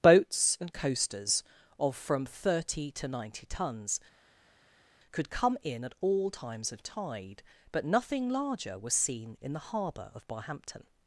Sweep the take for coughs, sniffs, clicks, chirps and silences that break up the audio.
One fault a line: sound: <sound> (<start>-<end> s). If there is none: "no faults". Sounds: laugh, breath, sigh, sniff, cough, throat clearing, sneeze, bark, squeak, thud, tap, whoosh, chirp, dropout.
no faults